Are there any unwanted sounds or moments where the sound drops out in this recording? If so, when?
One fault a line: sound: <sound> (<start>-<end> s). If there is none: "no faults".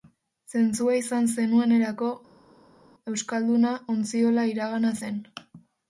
no faults